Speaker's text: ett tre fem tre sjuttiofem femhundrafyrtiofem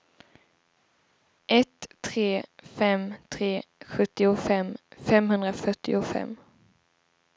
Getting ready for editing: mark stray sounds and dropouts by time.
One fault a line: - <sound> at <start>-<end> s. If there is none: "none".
none